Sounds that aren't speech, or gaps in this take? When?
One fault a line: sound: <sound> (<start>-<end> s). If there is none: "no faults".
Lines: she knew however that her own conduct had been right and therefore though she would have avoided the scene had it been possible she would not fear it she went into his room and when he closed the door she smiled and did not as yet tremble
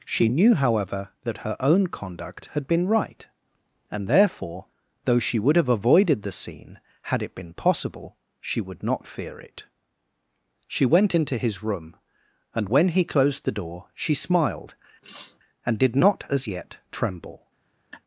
sound: sniff (15.0-15.4 s)
sound: laugh (17.9-18.0 s)